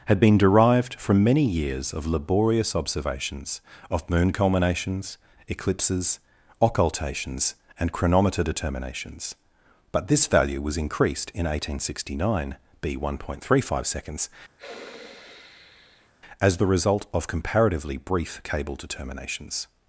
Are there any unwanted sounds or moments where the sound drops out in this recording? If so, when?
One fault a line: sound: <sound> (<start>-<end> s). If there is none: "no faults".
sound: sniff (14.6-16.1 s)